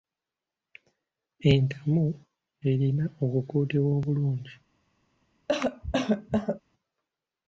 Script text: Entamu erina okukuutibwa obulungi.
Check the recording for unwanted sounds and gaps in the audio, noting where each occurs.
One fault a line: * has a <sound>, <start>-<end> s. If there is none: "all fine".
* has a cough, 5.5-6.6 s